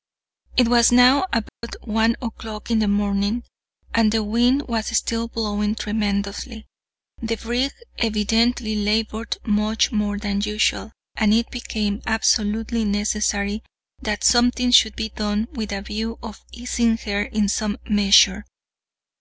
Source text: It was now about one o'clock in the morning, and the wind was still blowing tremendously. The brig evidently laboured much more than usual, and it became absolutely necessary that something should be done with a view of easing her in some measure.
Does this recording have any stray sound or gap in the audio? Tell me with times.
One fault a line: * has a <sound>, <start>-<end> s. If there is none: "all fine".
* has a dropout, 1.5-1.6 s